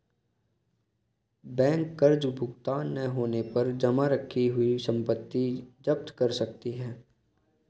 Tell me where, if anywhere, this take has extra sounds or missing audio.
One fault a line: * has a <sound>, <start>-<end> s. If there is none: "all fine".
all fine